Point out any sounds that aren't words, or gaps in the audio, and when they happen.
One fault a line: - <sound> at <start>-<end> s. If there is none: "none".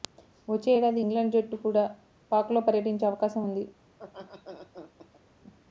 - laugh at 3.9-5.2 s